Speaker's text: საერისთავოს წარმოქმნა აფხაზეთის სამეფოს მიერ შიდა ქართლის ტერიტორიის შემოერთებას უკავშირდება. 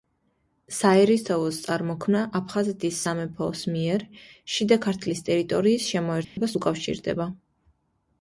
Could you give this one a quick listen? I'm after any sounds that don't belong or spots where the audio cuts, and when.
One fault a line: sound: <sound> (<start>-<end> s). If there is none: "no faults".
sound: dropout (6.2-6.4 s)